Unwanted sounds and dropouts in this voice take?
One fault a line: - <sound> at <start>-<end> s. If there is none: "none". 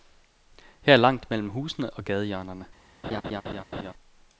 - laugh at 3.0-3.9 s